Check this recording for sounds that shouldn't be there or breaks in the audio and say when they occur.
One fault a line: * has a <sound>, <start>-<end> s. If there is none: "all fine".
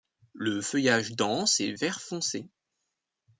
all fine